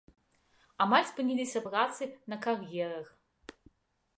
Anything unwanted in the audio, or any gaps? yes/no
no